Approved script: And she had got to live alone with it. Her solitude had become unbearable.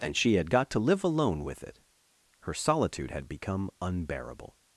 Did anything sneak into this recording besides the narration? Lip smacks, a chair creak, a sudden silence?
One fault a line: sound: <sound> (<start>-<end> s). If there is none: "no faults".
no faults